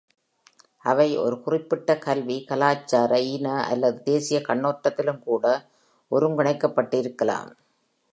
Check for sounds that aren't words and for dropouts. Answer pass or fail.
pass